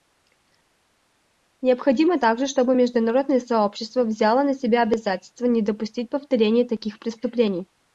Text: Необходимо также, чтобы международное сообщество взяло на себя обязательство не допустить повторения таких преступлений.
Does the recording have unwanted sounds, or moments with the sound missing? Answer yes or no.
no